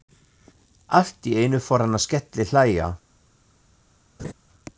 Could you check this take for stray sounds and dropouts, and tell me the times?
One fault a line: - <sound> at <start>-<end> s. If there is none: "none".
- laugh at 4.2-4.3 s